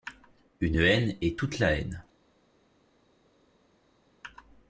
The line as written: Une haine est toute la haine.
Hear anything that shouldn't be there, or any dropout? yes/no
no